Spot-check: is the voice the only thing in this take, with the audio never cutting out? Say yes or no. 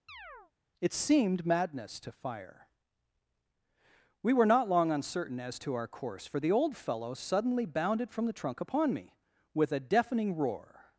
no